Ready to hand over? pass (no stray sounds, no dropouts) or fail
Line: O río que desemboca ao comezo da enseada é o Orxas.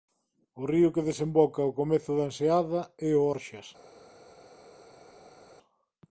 pass